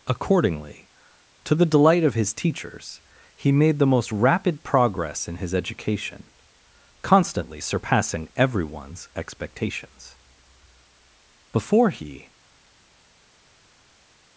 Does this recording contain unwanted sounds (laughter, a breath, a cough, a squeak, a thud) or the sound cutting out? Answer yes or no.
no